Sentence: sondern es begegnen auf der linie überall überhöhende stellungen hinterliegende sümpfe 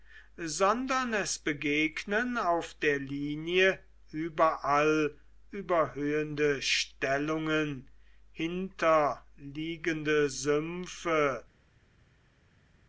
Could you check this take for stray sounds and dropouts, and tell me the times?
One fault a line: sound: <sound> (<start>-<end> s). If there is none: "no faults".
no faults